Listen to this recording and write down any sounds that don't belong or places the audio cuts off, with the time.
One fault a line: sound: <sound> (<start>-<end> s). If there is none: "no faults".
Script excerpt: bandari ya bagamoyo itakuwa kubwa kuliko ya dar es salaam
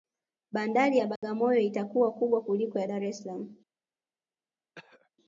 sound: dropout (1.2-1.2 s)
sound: throat clearing (4.8-5.1 s)